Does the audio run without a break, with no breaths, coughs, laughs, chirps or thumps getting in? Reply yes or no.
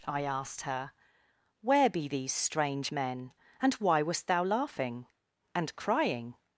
yes